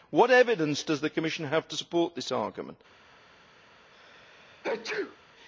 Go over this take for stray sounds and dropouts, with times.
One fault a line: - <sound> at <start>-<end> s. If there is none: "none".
- sneeze at 3.9-5.2 s